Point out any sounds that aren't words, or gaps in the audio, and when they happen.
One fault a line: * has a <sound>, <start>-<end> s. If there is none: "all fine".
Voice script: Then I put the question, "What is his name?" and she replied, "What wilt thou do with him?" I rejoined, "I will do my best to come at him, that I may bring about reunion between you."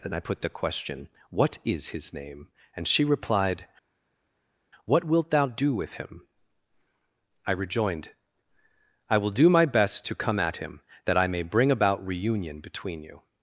all fine